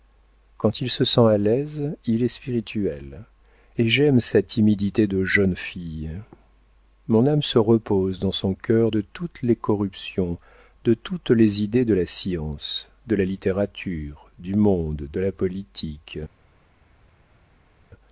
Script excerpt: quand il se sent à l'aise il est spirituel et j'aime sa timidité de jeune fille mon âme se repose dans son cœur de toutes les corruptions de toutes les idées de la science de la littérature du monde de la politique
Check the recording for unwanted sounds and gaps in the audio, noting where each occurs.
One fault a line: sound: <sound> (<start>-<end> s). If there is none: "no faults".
no faults